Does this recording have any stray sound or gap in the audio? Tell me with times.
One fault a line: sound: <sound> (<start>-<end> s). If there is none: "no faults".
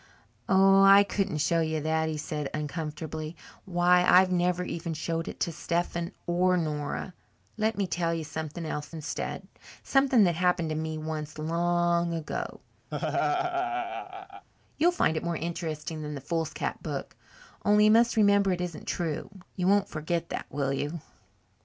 sound: laugh (12.9-14.5 s)